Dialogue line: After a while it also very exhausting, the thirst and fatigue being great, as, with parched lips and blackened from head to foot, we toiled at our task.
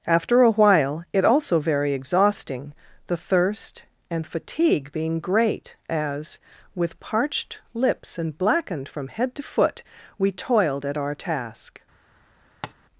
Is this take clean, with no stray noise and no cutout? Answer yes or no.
no